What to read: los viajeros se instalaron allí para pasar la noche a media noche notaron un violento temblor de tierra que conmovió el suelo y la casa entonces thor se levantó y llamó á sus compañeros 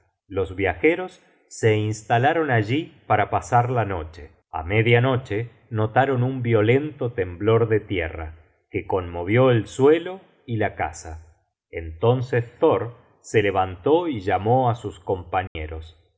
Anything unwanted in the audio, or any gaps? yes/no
yes